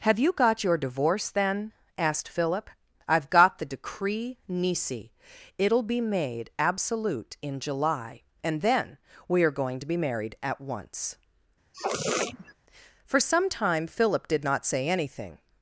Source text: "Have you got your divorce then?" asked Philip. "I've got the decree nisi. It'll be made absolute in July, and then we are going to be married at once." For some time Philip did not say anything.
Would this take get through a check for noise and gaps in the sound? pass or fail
fail